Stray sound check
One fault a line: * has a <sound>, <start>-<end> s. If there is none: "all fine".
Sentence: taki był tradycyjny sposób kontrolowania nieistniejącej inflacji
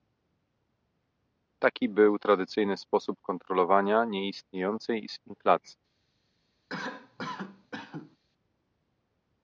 * has a cough, 6.7-8.2 s